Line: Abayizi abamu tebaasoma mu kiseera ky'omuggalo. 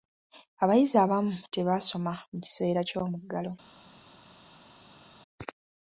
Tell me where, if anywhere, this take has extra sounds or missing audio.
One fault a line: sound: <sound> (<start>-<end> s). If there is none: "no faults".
no faults